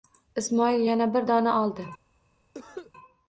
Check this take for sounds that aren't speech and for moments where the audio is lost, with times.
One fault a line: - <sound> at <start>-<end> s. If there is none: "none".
- cough at 2.5-2.9 s